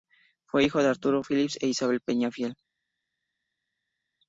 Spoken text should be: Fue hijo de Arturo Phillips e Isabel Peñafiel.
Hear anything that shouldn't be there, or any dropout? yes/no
no